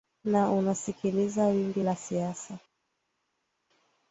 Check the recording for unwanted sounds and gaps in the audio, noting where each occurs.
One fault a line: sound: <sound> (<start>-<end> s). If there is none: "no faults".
no faults